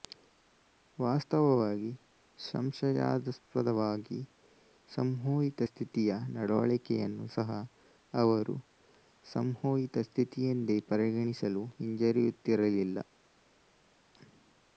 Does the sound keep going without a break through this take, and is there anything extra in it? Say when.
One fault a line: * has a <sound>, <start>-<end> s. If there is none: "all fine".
all fine